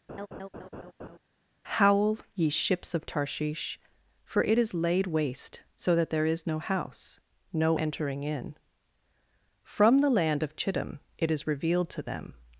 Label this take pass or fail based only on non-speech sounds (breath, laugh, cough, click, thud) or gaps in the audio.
fail